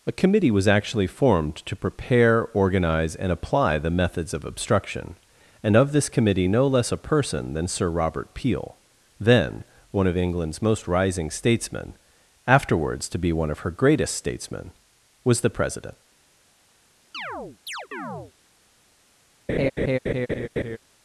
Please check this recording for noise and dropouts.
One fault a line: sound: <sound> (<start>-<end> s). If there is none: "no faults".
sound: chirp (17.1-18.3 s)
sound: laugh (19.5-20.8 s)